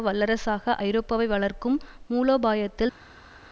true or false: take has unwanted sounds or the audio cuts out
false